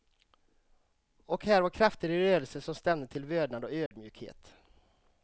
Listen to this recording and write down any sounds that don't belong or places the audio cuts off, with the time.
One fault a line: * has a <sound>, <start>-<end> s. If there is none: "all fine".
* has a dropout, 3.9-3.9 s